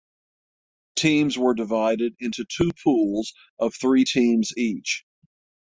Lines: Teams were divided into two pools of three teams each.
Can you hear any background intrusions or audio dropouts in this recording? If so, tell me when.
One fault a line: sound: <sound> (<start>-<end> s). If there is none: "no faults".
no faults